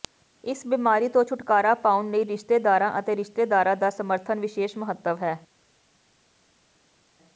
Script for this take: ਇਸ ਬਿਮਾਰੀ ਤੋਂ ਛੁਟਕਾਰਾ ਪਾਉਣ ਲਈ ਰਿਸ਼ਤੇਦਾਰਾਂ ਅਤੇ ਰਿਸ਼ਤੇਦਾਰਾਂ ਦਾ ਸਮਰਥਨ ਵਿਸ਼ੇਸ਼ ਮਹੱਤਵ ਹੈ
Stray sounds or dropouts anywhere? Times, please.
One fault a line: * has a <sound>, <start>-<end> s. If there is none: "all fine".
all fine